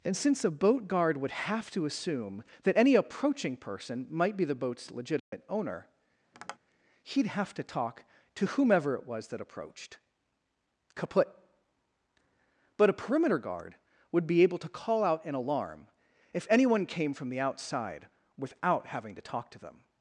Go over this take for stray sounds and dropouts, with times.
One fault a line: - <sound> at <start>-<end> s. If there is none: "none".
- dropout at 5.2-5.3 s
- tap at 6.3-6.6 s